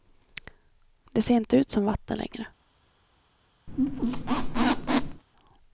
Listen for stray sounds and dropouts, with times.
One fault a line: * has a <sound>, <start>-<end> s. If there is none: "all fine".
* has a squeak, 3.7-5.2 s